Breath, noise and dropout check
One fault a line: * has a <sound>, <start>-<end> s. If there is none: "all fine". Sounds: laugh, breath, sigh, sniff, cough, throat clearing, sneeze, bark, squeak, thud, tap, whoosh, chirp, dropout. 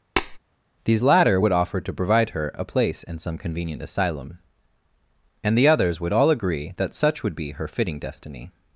* has a tap, 0.2-0.4 s